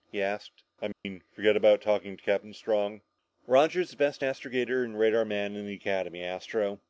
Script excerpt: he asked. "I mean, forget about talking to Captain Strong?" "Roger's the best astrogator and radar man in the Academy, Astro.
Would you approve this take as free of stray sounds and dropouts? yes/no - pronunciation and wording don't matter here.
no